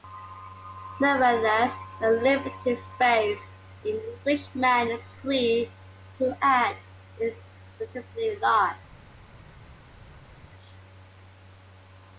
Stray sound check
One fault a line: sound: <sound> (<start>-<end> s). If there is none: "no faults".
no faults